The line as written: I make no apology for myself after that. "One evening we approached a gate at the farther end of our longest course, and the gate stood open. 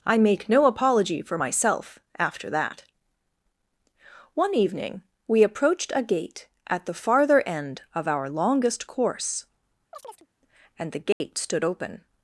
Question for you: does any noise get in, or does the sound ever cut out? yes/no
yes